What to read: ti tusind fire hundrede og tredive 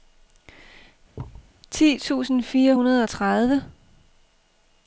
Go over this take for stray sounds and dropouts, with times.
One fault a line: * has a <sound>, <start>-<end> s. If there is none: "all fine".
* has a thud, 1.1-1.5 s